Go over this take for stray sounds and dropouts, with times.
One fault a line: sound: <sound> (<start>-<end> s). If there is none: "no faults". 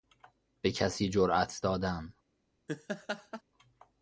sound: laugh (2.7-3.4 s)